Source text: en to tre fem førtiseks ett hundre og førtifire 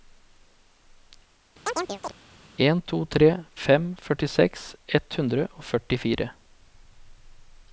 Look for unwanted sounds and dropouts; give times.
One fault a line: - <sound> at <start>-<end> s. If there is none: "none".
- chirp at 1.7-2.1 s